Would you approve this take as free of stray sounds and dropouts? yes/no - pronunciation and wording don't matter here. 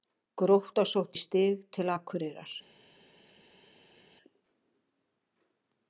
yes